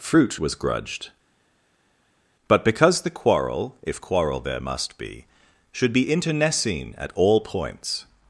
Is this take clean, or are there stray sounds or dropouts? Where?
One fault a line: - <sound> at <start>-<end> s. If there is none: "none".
none